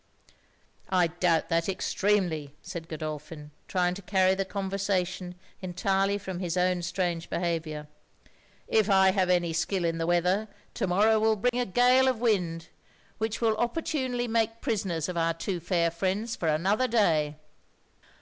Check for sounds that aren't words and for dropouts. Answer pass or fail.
fail